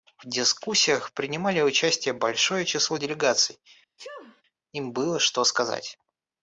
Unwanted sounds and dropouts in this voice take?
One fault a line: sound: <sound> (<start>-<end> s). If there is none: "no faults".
sound: sneeze (4.0-4.4 s)